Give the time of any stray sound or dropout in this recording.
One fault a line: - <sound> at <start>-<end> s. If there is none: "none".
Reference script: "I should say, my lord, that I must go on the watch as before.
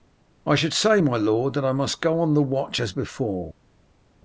none